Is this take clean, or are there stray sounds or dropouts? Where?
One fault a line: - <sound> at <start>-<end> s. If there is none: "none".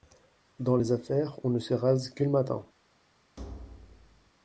- thud at 3.4-4.3 s